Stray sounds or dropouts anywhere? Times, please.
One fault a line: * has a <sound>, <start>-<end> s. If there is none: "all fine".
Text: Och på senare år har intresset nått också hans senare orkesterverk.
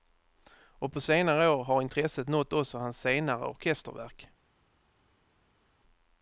all fine